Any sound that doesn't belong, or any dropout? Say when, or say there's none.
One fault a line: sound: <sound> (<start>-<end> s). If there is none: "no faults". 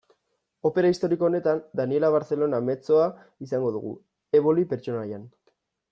no faults